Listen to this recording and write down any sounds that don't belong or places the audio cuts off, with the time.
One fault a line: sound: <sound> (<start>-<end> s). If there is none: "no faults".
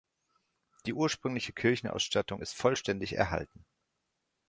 no faults